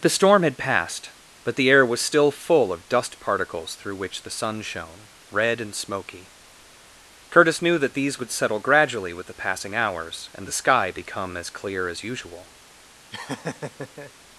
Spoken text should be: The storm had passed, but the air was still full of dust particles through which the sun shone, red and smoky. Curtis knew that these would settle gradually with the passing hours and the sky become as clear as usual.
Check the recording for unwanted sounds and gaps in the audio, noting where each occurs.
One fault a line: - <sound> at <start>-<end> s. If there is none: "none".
- laugh at 13.1-14.1 s